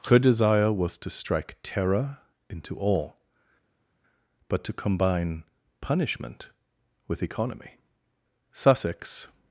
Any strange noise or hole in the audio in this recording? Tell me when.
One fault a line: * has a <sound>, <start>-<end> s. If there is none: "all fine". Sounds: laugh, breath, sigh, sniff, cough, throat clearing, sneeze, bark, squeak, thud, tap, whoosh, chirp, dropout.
all fine